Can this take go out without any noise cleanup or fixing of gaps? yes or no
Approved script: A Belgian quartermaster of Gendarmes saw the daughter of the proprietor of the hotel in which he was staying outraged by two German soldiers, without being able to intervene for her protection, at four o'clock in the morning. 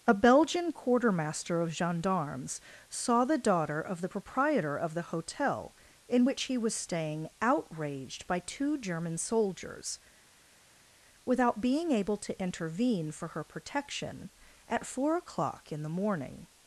yes